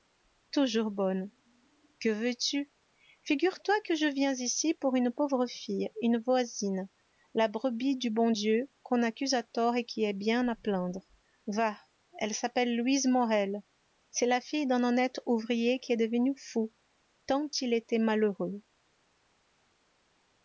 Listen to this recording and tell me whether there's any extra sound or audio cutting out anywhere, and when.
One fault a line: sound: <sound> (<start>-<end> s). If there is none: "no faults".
no faults